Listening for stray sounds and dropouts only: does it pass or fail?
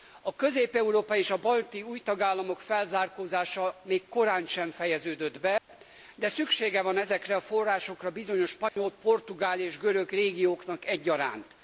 fail